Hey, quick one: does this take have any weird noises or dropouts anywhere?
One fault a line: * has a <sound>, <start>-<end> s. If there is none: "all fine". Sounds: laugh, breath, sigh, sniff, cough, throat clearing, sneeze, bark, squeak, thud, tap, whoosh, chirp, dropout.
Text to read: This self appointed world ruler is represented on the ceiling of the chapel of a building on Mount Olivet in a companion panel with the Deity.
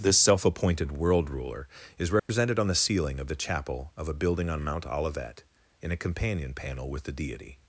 * has a dropout, 2.2-2.3 s